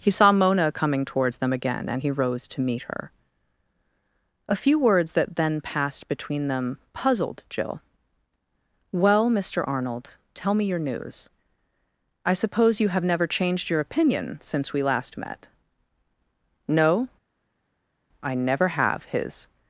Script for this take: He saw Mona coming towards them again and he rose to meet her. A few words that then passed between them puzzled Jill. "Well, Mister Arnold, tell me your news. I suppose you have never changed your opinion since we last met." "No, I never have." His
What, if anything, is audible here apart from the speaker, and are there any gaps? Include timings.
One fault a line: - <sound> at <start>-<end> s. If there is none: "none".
none